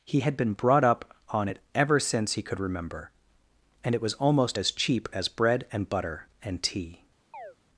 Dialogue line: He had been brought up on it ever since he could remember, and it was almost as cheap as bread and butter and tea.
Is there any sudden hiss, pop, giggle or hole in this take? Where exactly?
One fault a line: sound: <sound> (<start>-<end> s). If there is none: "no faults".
sound: chirp (7.3-7.6 s)